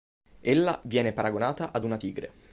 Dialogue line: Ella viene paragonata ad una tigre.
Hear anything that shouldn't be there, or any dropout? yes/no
no